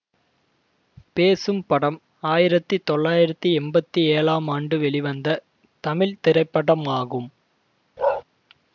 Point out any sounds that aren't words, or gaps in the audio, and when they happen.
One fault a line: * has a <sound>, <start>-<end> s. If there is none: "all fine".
* has a bark, 8.0-8.2 s